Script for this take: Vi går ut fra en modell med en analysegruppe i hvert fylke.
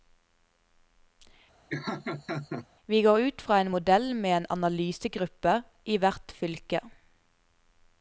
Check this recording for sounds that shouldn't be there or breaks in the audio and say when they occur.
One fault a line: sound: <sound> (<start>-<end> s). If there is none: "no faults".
sound: laugh (1.7-2.7 s)